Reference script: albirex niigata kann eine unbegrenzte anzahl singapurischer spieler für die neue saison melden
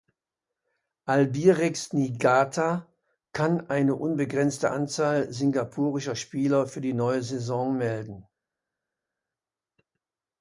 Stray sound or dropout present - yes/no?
no